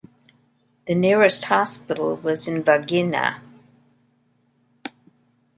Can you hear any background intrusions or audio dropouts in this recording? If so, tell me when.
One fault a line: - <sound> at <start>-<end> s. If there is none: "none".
none